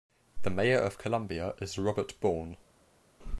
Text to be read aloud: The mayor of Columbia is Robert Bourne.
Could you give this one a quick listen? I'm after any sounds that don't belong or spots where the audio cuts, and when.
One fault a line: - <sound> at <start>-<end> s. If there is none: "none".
none